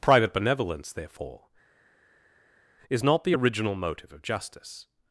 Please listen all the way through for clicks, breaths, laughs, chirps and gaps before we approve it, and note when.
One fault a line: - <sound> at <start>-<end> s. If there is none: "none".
none